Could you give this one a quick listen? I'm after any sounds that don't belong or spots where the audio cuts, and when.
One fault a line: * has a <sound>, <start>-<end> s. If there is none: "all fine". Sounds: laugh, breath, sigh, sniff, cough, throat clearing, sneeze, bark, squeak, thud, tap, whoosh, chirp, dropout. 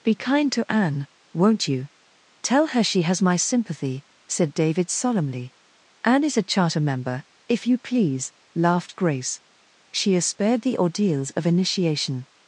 all fine